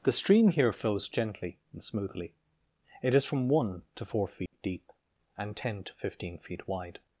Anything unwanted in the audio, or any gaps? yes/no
yes